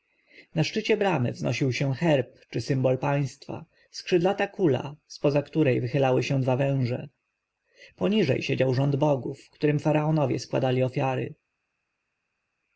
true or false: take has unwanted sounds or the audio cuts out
false